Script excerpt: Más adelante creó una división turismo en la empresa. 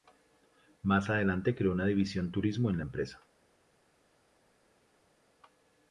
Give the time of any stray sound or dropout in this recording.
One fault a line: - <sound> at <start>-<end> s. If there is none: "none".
none